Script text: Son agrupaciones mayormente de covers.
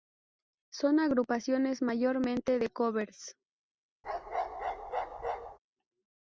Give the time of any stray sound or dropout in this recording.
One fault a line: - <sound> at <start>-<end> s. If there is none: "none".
- bark at 4.0-5.6 s